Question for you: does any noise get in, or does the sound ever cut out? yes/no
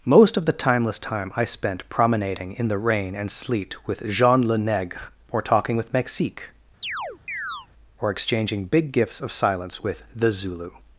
yes